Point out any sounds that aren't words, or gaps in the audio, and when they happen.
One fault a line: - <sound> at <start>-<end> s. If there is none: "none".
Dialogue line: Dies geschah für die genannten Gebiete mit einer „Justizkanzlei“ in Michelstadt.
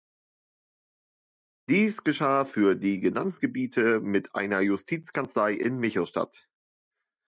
none